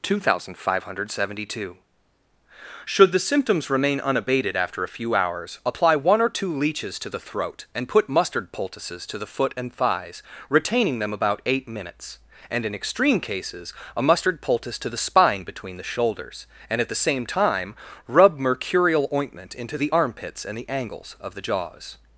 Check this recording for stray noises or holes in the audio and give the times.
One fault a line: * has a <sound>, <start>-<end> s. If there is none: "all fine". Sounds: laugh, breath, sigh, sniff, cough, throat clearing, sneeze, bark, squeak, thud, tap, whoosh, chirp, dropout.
all fine